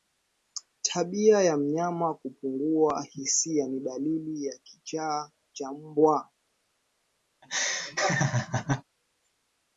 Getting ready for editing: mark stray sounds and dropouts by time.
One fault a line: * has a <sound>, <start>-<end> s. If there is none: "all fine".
* has a laugh, 7.4-8.8 s